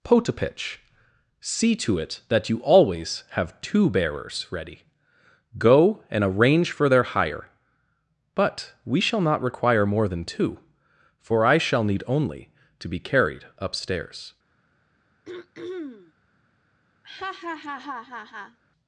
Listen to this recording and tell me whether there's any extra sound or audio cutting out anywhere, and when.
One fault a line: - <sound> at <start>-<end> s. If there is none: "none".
- throat clearing at 15.2-16.1 s
- laugh at 17.0-18.6 s